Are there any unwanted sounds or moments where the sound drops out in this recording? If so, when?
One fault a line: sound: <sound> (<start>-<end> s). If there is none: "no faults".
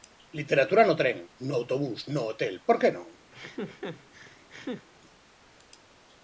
sound: laugh (3.3-4.9 s)